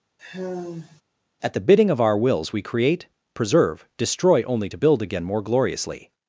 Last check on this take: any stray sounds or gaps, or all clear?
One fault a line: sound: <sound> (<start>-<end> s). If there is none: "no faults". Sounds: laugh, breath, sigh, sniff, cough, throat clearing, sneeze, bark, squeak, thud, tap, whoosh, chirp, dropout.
sound: sigh (0.2-1.0 s)